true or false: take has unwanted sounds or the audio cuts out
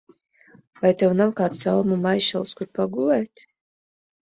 false